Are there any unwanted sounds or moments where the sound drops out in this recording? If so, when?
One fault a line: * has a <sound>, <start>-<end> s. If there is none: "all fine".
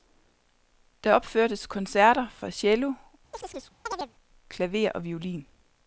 * has a chirp, 3.3-4.1 s